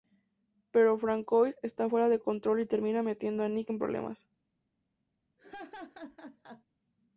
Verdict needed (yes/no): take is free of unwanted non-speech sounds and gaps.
no